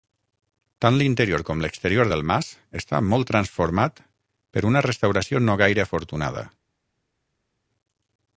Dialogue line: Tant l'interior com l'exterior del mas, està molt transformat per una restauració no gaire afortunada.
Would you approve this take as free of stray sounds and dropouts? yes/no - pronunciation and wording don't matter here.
yes